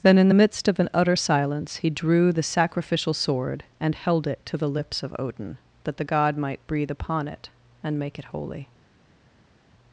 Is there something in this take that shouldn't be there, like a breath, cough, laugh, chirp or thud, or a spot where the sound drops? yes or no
no